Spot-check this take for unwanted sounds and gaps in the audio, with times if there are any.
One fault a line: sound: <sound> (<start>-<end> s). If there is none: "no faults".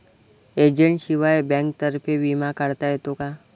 no faults